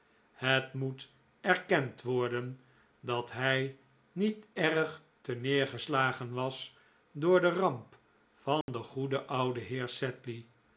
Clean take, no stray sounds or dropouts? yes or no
no